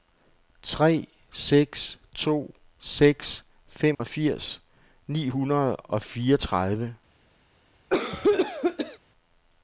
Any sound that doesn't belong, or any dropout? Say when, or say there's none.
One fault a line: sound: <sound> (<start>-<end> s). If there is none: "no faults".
sound: dropout (3.9-4.0 s)
sound: cough (7.9-9.0 s)